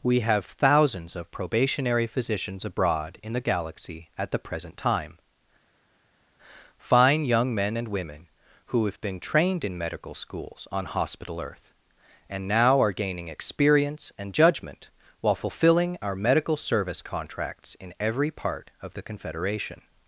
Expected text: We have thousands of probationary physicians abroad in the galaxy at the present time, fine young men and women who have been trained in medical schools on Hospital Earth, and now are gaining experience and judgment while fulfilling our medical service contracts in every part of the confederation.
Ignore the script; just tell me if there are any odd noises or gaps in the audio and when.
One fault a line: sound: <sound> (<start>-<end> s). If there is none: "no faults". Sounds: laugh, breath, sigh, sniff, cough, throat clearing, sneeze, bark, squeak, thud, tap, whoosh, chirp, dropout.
no faults